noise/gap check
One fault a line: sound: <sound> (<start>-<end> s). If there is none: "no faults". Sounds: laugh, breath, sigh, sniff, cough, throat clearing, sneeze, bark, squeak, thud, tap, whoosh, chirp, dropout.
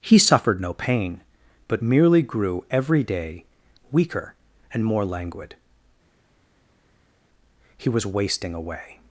no faults